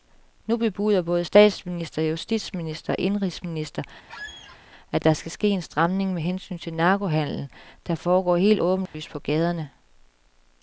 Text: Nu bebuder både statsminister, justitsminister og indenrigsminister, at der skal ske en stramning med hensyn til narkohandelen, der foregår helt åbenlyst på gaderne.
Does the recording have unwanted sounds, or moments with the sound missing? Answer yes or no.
yes